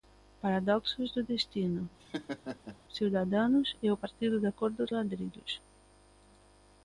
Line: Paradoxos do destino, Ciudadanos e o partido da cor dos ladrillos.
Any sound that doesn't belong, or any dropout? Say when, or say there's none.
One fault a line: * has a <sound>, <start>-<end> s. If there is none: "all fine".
* has a laugh, 2.0-2.8 s